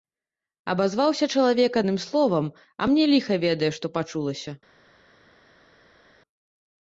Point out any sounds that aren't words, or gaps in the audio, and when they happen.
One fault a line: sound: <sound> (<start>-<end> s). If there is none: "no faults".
no faults